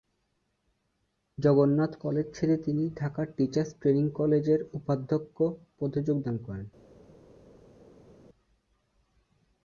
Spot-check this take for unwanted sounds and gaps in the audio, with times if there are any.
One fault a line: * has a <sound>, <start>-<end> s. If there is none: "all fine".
all fine